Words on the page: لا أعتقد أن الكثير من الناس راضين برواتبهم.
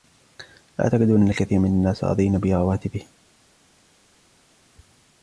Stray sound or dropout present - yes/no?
no